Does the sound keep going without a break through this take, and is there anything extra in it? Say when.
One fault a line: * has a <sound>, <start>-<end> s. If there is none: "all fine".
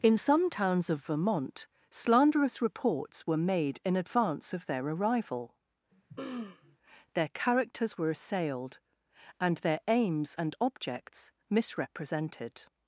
* has a throat clearing, 5.9-6.8 s